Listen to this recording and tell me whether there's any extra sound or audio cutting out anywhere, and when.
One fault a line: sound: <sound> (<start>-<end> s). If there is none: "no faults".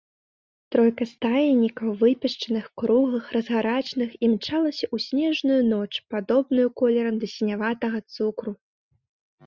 no faults